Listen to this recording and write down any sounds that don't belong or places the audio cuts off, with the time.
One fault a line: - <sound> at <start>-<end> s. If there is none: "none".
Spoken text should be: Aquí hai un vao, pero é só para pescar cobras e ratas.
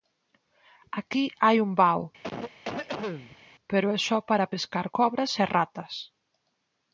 - cough at 2.2-3.5 s